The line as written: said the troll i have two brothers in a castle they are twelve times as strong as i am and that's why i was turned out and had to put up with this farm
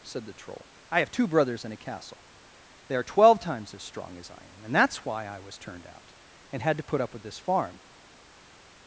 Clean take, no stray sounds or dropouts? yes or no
yes